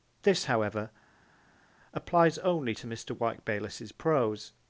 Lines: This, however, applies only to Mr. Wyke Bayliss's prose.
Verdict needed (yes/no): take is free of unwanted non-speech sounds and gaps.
yes